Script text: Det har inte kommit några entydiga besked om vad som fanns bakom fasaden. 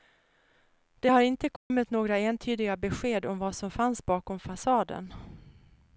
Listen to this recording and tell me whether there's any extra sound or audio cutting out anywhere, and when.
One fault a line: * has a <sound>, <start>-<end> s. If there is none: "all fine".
* has a dropout, 1.6-1.7 s